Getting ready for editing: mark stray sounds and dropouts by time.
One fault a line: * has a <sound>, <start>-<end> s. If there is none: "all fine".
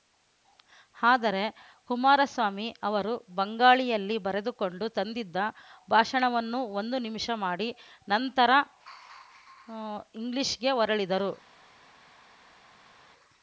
all fine